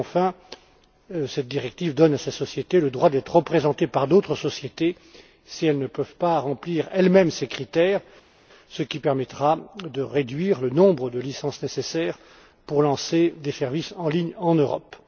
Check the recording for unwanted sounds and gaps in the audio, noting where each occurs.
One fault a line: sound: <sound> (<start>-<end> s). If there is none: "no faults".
no faults